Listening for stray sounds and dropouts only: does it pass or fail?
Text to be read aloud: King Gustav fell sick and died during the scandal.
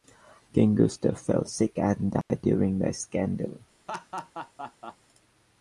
fail